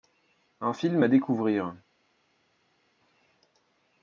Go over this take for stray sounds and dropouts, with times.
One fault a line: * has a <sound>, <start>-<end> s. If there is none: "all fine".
all fine